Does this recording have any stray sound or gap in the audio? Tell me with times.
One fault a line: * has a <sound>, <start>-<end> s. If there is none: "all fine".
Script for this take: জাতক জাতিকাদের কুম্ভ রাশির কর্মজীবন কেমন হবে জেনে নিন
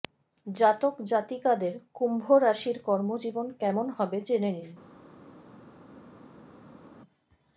all fine